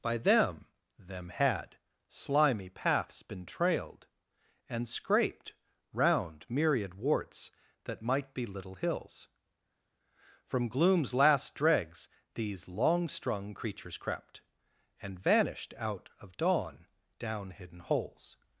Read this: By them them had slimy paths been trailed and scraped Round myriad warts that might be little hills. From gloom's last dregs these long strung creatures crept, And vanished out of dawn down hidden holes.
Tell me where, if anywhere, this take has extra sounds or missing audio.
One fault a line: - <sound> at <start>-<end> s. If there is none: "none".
none